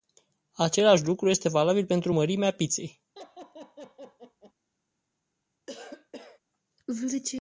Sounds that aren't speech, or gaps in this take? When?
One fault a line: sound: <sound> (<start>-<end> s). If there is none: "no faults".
sound: laugh (3.2-4.5 s)
sound: cough (5.7-6.4 s)